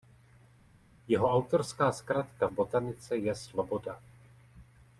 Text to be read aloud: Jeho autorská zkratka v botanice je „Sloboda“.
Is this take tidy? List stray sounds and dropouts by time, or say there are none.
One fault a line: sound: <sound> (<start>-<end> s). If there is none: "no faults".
no faults